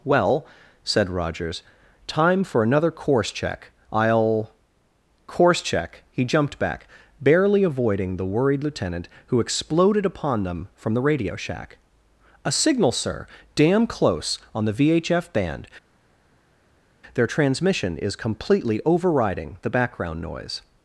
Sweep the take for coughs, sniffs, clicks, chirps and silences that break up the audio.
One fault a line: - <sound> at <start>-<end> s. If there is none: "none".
none